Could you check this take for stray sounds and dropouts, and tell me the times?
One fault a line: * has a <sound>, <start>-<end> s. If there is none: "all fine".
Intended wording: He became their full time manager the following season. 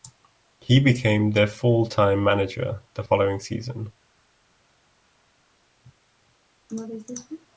all fine